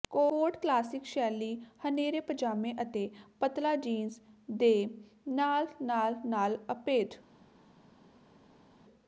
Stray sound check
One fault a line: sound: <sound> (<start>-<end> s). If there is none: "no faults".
no faults